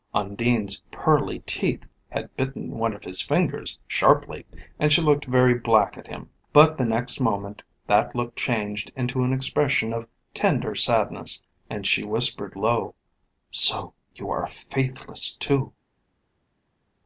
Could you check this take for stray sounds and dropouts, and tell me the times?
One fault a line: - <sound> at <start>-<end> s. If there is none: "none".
none